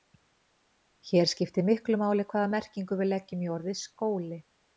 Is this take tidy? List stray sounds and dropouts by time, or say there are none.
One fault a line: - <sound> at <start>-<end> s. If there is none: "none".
none